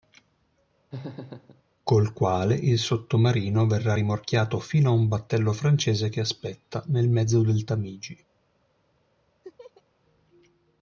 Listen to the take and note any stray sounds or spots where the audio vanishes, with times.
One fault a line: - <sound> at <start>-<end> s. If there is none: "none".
- laugh at 0.9-1.6 s
- laugh at 9.4-9.8 s